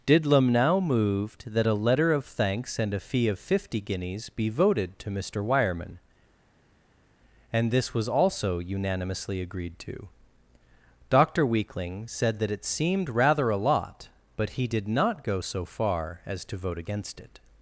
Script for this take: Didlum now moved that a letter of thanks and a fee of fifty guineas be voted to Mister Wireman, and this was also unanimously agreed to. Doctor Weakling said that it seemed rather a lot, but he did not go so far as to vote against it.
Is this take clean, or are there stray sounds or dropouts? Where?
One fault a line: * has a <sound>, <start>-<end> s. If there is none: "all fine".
all fine